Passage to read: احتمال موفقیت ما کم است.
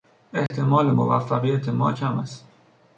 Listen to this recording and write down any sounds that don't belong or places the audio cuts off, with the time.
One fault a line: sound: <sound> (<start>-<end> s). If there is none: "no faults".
sound: dropout (0.5-0.5 s)